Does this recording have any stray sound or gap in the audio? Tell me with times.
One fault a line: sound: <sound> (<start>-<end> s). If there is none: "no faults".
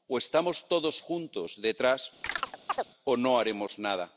sound: chirp (2.2-2.9 s)